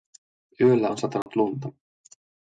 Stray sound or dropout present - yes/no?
yes